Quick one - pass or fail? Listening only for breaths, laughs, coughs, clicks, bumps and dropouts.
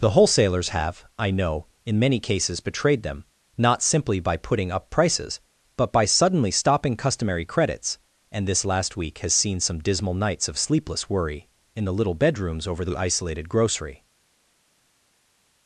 pass